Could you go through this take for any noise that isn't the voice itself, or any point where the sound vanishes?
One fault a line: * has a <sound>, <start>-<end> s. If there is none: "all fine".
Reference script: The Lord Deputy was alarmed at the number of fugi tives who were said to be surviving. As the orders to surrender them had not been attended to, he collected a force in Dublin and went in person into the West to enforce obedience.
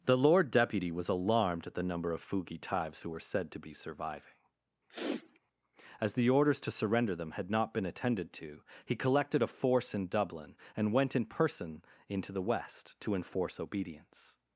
* has a sniff, 4.9-5.4 s